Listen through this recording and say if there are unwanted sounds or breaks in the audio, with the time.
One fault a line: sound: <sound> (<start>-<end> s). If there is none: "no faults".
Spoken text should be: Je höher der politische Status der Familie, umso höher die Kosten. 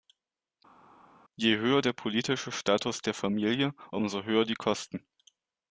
no faults